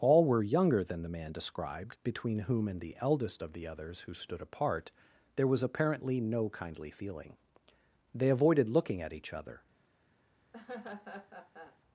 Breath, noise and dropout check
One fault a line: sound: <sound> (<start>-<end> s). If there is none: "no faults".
sound: laugh (10.5-11.8 s)